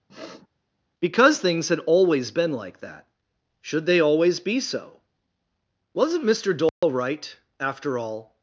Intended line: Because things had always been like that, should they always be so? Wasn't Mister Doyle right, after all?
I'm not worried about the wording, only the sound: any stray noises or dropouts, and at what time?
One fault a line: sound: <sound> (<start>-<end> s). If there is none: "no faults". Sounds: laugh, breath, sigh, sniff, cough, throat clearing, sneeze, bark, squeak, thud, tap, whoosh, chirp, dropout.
sound: sniff (0.1-0.5 s)
sound: dropout (6.7-6.8 s)